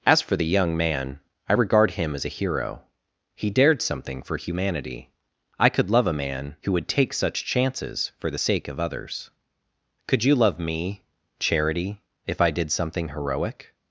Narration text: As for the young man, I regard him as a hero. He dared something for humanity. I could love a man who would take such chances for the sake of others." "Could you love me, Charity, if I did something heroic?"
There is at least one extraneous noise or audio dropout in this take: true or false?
false